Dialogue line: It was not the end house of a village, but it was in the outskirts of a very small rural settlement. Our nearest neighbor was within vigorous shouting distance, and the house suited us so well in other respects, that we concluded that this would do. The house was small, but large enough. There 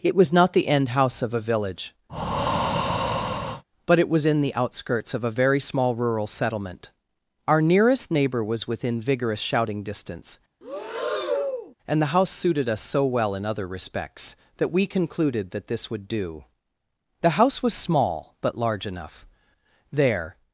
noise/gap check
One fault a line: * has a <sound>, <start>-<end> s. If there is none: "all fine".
* has a breath, 2.1-3.6 s
* has a breath, 10.6-11.7 s